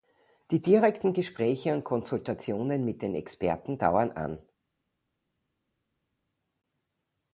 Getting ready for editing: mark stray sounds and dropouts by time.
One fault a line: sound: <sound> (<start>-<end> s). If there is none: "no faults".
no faults